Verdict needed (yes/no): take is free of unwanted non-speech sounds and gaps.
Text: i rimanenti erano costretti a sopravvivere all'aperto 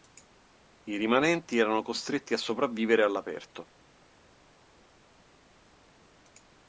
yes